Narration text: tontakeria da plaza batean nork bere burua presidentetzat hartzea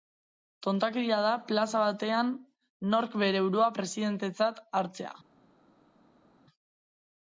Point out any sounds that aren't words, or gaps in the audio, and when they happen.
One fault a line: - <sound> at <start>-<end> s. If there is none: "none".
none